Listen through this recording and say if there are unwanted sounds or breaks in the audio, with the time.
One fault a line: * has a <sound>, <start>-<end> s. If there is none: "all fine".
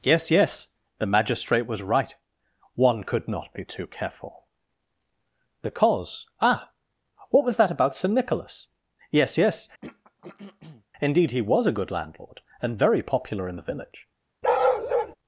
* has a throat clearing, 9.8-10.9 s
* has a bark, 14.4-15.2 s